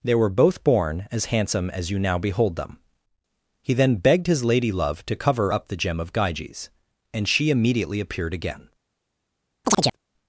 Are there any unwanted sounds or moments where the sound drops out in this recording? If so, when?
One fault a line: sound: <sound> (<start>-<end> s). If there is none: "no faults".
sound: chirp (9.6-10.0 s)